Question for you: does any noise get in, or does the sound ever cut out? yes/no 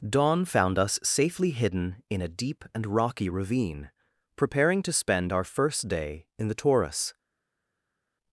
no